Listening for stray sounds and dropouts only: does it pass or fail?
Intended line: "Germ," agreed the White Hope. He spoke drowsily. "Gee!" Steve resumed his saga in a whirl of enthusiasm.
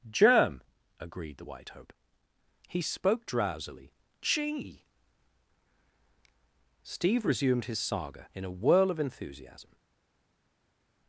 pass